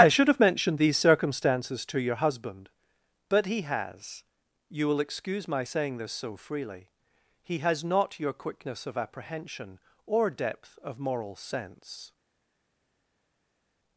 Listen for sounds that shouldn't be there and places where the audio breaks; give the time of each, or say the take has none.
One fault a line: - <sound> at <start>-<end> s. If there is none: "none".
none